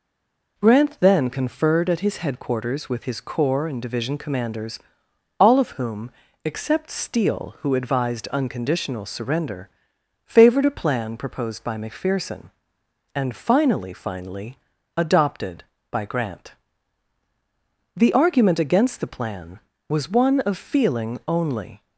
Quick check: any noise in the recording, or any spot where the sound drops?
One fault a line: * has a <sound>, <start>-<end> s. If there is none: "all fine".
all fine